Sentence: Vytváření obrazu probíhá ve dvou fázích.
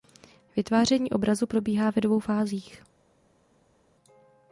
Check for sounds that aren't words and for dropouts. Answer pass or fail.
pass